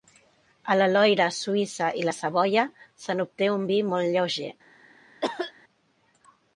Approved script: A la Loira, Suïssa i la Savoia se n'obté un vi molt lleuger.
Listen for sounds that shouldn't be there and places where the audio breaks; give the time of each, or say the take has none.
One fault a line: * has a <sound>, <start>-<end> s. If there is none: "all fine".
* has a cough, 5.2-5.5 s